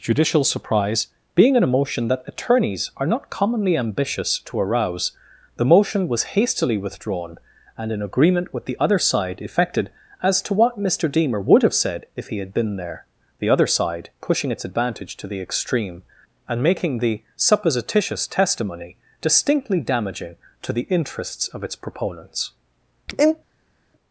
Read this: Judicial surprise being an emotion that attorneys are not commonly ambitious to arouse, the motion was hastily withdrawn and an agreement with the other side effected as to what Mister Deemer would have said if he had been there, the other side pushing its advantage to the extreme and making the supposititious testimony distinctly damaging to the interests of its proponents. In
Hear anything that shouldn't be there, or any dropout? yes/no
no